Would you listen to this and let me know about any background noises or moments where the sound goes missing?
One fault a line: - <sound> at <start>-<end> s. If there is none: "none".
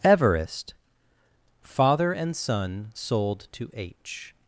none